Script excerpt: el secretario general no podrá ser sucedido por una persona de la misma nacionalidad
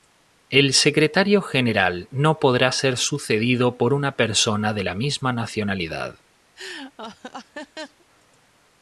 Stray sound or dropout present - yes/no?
yes